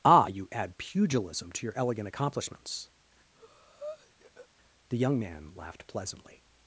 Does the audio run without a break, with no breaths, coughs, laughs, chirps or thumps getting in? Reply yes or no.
no